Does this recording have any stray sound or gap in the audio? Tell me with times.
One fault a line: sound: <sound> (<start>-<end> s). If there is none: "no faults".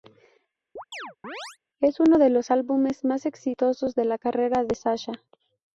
sound: chirp (0.8-1.6 s)